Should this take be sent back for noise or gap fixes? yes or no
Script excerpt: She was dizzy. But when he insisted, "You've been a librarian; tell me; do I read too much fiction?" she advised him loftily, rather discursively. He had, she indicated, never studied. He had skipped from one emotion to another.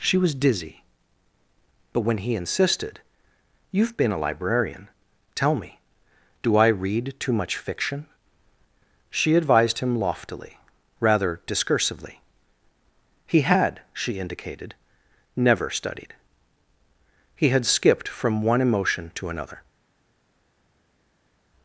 no